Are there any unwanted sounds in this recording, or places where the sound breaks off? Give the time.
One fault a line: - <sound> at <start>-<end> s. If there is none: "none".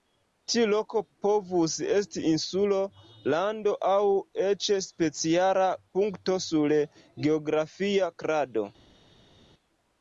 none